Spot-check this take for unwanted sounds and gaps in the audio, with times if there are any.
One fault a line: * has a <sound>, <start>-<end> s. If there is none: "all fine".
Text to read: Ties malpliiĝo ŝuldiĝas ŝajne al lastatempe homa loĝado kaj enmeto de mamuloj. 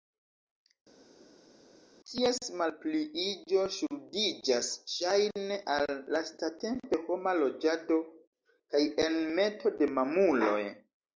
all fine